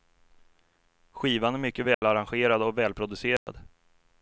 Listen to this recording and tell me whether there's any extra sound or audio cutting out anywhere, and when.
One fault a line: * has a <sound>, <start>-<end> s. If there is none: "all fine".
* has a dropout, 1.9-2.0 s
* has a dropout, 3.4-3.5 s